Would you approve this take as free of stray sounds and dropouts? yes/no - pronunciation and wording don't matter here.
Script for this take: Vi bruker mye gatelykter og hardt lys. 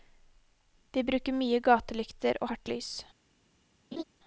no